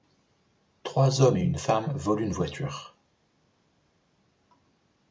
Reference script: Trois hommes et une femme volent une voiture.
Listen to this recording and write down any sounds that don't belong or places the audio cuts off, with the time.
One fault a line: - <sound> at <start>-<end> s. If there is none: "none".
none